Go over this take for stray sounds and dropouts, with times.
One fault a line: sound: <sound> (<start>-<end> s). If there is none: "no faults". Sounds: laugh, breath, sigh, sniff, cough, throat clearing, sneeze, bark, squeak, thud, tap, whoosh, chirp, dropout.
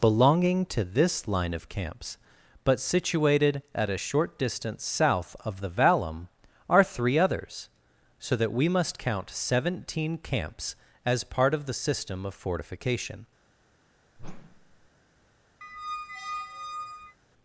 sound: whoosh (14.2-14.9 s)
sound: squeak (15.6-17.2 s)